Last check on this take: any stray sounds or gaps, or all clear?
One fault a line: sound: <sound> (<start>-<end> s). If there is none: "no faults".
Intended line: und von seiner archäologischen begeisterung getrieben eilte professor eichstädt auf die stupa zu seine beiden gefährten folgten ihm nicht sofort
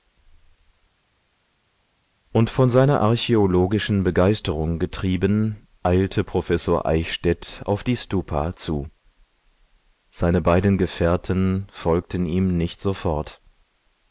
no faults